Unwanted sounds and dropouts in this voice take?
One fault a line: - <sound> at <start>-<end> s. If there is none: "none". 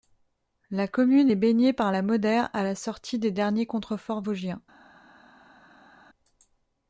none